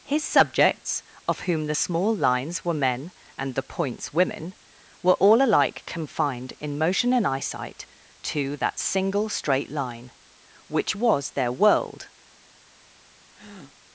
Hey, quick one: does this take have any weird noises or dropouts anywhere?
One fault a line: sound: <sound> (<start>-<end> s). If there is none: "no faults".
sound: breath (13.3-13.8 s)